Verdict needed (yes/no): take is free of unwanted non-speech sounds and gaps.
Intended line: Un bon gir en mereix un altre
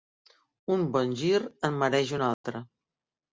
no